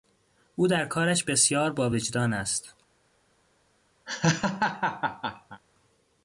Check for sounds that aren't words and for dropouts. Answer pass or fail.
fail